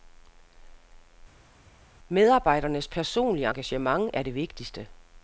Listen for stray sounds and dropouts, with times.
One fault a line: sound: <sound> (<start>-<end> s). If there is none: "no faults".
no faults